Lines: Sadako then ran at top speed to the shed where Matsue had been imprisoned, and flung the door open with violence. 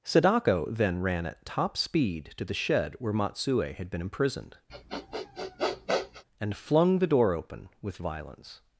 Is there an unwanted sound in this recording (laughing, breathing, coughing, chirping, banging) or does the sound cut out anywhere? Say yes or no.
yes